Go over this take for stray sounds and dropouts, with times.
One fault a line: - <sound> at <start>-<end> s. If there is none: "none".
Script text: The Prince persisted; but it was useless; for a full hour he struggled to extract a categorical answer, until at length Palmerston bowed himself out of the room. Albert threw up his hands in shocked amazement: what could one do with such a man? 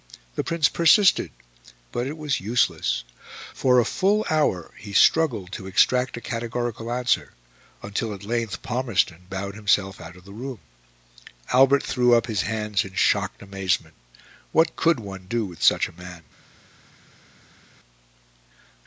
none